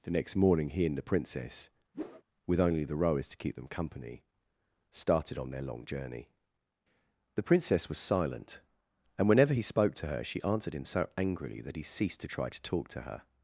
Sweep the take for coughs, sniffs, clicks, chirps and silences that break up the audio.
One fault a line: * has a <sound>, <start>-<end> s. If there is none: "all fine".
* has a whoosh, 1.9-2.2 s